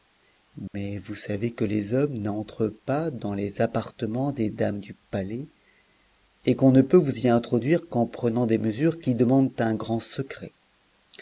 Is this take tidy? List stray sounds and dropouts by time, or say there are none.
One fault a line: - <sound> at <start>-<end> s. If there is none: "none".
- dropout at 0.7-0.7 s